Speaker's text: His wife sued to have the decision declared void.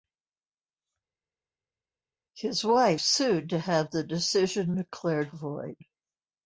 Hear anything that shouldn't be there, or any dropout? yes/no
no